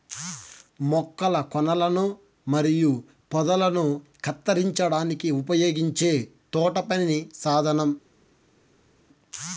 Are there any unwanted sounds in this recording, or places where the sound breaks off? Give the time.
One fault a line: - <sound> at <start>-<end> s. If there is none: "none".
none